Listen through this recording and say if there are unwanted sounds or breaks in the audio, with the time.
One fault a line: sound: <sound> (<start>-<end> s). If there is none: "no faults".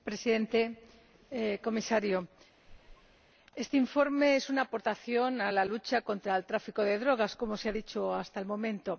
sound: squeak (2.6-3.3 s)